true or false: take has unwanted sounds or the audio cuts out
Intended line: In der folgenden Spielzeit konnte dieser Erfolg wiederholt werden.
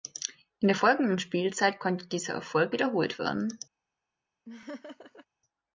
true